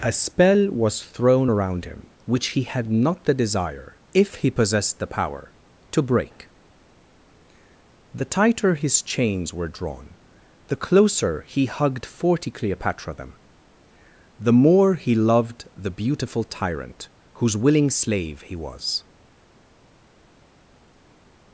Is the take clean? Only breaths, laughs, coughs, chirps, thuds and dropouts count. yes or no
yes